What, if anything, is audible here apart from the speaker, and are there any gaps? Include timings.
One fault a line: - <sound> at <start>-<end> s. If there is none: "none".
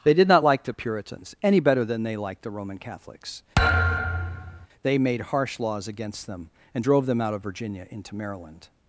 - thud at 3.6-4.7 s